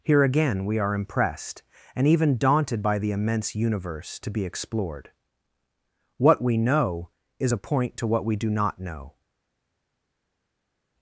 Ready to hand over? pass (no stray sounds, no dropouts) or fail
pass